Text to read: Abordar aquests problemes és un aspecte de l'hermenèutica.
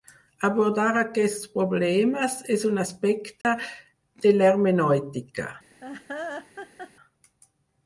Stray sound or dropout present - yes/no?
yes